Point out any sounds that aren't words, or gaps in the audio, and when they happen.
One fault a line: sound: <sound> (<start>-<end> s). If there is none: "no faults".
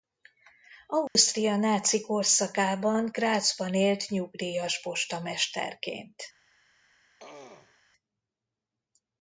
sound: dropout (1.1-1.2 s)
sound: throat clearing (7.2-7.8 s)